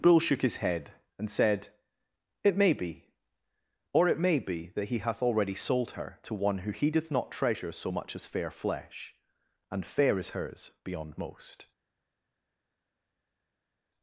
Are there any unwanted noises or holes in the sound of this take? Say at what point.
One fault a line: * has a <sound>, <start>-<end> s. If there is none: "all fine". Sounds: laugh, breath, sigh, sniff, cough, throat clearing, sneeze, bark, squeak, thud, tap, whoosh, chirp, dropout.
all fine